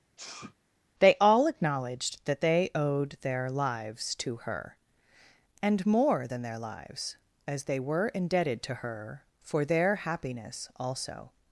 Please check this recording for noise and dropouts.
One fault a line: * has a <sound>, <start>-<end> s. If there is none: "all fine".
* has a sneeze, 0.2-0.5 s